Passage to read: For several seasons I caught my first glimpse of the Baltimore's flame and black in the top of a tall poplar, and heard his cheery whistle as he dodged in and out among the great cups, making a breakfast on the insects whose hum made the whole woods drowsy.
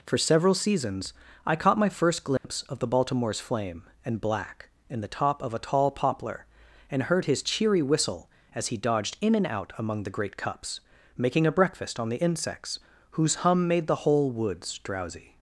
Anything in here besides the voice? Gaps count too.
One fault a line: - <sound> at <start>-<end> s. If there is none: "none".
- dropout at 2.4-2.4 s